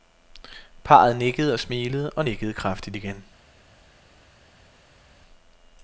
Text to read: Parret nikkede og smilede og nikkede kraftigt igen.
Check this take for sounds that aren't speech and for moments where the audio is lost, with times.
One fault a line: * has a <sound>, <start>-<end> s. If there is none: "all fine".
all fine